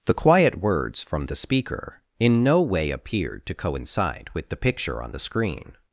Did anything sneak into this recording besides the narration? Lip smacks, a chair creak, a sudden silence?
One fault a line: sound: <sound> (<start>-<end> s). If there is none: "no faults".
no faults